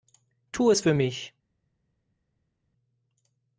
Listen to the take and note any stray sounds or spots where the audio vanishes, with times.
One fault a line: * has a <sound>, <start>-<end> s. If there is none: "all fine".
all fine